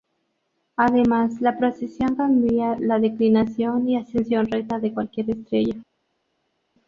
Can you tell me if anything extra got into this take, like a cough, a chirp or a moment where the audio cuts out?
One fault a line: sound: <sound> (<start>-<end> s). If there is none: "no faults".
no faults